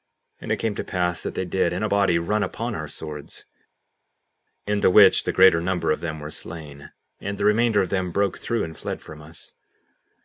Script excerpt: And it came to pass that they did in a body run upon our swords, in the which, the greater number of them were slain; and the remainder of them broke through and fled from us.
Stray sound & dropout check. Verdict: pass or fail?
pass